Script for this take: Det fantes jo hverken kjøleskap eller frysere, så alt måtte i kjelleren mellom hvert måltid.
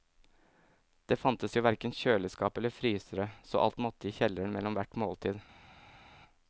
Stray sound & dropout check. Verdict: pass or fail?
pass